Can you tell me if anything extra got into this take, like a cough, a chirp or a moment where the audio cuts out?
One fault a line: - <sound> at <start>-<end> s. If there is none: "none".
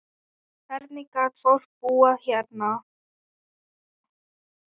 none